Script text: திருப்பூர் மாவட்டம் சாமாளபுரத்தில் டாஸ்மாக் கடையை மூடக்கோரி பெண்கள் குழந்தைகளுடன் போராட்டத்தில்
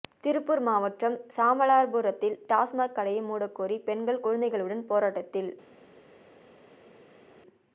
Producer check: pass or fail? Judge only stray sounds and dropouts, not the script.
pass